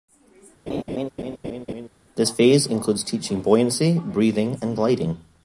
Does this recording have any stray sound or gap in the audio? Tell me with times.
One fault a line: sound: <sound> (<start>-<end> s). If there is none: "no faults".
sound: laugh (0.7-1.9 s)